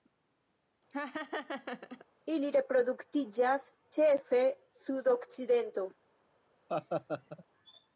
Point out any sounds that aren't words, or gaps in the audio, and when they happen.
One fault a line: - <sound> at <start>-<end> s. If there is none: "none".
- laugh at 0.9-2.1 s
- laugh at 6.7-7.5 s